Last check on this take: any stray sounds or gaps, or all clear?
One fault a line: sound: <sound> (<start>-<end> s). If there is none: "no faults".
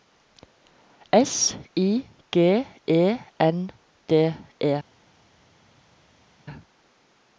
no faults